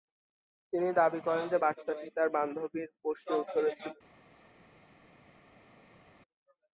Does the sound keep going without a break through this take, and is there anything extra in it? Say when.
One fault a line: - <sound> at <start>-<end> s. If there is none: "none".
none